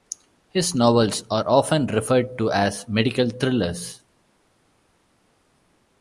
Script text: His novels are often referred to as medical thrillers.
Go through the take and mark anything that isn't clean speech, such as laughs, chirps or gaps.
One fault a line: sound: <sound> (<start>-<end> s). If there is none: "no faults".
no faults